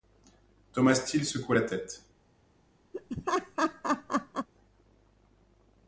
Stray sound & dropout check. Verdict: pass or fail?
fail